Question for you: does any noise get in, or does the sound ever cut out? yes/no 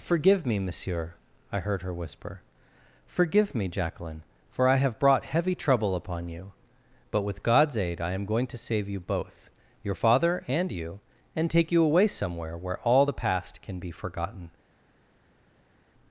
no